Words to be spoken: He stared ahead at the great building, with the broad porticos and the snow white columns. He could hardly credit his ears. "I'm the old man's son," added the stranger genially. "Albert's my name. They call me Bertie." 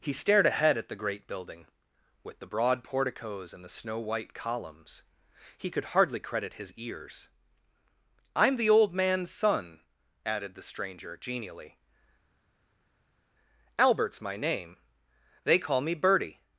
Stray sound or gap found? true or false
false